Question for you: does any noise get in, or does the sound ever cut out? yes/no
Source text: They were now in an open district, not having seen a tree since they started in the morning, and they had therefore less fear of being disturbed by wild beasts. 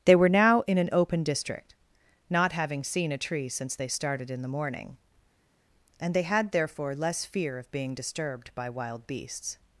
no